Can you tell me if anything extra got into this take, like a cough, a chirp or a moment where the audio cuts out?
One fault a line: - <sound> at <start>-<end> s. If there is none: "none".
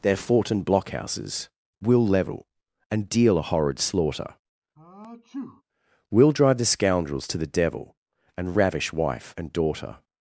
- sneeze at 4.8-5.6 s